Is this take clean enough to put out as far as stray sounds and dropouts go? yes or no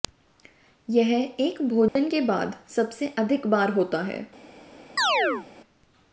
no